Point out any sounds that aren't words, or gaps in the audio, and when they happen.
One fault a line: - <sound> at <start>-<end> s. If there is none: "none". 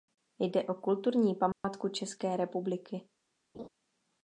- dropout at 1.5-1.6 s
- laugh at 3.5-3.7 s